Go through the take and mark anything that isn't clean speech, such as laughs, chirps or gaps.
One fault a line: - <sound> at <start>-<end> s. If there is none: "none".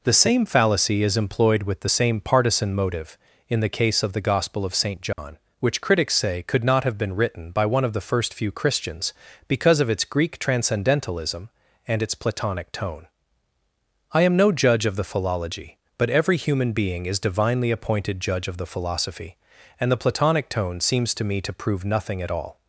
- dropout at 5.1-5.2 s